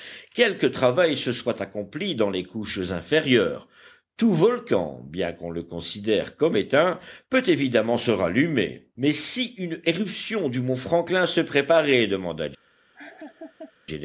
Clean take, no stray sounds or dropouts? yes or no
no